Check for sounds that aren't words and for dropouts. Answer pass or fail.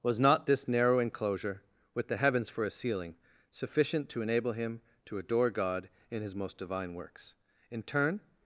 pass